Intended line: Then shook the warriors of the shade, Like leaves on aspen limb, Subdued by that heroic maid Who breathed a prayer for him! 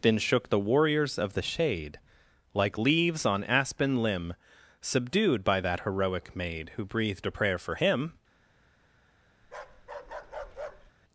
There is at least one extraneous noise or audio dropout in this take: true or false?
true